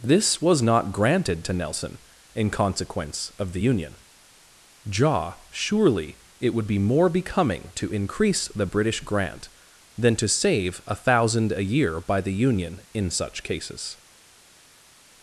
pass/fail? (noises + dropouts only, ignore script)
pass